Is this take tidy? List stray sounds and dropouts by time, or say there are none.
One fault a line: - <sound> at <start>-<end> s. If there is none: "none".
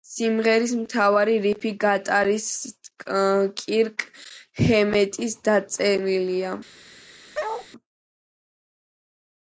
- bark at 7.3-7.7 s